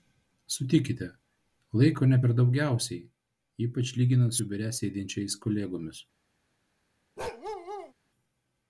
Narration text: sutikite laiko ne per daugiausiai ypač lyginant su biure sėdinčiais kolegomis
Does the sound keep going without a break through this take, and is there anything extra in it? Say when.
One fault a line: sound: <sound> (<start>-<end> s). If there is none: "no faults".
sound: bark (7.2-7.9 s)